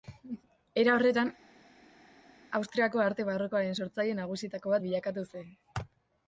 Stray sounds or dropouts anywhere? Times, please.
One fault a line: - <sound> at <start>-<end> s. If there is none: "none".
none